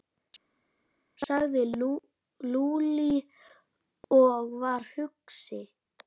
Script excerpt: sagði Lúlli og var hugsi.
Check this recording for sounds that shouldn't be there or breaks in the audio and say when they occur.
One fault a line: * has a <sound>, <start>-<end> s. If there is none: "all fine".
all fine